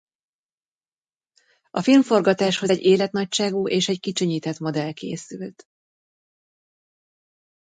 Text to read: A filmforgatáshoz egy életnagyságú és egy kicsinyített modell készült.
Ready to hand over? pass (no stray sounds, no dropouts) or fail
pass